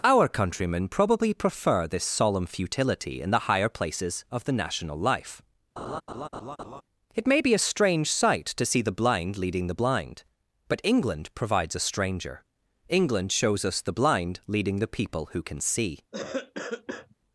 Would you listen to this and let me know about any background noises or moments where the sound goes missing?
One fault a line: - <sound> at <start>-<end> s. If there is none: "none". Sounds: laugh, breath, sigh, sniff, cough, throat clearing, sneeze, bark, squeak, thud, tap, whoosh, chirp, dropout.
- laugh at 5.8-6.8 s
- cough at 16.1-17.2 s